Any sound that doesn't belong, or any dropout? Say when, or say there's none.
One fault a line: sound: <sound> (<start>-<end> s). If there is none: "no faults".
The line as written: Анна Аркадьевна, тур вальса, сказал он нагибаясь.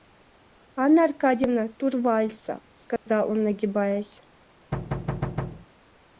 sound: dropout (3.0-3.1 s)
sound: thud (4.7-5.7 s)